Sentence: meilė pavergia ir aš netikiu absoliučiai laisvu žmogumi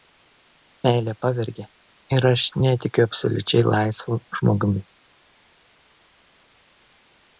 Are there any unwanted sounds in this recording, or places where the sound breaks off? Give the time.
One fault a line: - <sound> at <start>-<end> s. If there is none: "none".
none